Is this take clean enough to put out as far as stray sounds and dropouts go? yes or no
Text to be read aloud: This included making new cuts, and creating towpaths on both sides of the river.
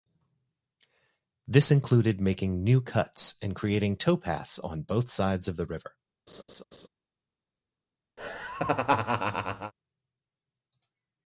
no